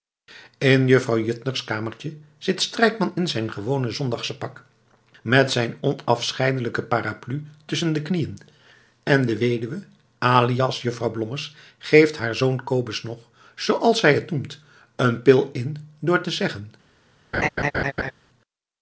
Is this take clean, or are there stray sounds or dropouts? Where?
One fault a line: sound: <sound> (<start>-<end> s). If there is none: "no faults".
sound: laugh (17.3-18.1 s)